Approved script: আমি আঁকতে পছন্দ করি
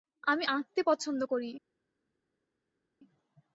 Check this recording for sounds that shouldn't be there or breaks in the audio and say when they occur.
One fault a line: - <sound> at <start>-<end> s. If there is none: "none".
none